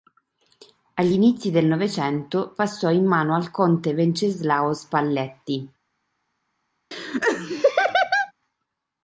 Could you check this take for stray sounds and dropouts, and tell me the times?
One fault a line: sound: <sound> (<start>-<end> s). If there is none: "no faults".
sound: laugh (6.9-8.3 s)